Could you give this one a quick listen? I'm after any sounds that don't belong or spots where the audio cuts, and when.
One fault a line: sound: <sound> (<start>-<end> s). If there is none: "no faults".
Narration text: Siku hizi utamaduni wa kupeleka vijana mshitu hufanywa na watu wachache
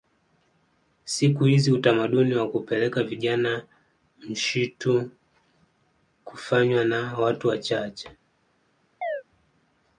sound: chirp (9.0-9.2 s)